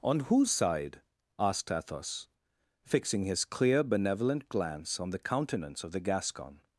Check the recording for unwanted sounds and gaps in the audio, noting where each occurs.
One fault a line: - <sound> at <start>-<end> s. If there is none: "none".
none